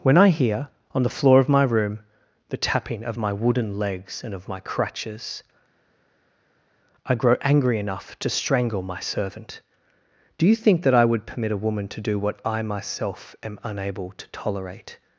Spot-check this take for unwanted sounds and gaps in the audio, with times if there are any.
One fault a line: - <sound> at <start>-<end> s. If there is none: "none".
none